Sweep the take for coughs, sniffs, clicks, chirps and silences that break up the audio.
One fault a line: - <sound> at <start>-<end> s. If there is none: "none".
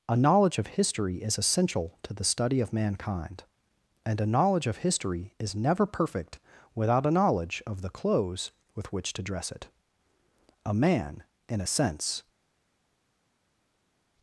none